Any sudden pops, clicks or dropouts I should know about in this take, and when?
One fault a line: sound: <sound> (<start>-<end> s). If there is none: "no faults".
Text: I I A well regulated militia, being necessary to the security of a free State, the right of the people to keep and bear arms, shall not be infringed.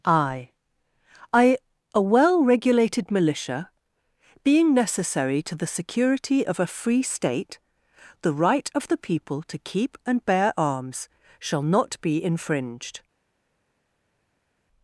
no faults